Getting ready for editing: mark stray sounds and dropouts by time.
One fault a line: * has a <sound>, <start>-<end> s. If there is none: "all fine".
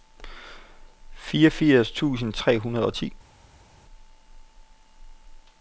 all fine